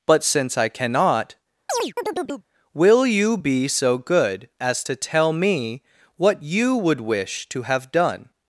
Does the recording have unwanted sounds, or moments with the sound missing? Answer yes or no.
yes